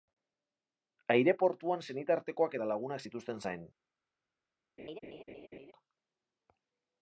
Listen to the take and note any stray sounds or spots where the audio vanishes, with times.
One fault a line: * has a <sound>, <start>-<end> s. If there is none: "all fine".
* has a laugh, 4.8-5.7 s